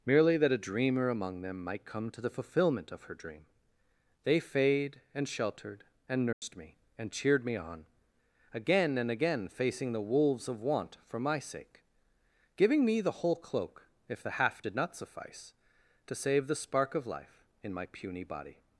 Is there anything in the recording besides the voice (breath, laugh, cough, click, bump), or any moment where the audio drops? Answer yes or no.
yes